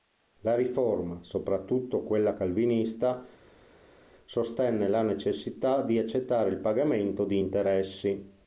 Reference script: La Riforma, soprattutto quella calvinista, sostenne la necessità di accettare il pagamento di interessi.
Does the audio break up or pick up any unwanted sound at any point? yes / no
no